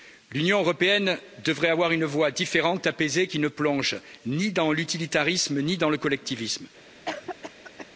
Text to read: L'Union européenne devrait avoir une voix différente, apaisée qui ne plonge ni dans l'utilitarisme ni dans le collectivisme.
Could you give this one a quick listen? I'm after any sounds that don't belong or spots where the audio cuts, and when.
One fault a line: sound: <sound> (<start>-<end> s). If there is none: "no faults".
sound: cough (7.1-7.9 s)